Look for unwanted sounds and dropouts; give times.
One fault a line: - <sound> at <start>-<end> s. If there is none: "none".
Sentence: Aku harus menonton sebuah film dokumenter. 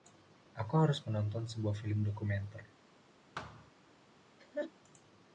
- thud at 3.3-3.7 s
- laugh at 4.4-4.7 s